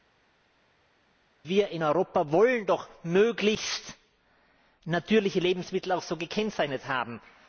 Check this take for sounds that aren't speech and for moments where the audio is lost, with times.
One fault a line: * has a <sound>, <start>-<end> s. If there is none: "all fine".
all fine